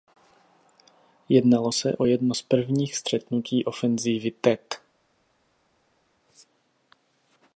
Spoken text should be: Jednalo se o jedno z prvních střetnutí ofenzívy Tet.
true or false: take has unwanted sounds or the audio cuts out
false